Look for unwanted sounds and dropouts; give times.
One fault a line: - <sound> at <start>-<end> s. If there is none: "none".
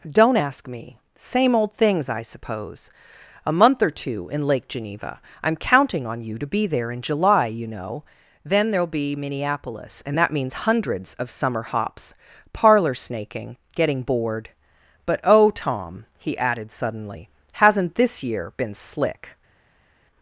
none